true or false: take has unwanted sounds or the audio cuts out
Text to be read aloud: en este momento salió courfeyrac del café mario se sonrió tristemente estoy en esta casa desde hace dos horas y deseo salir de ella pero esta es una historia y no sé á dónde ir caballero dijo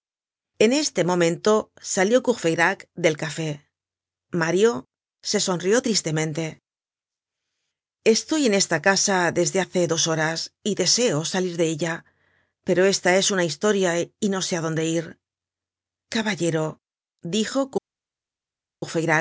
false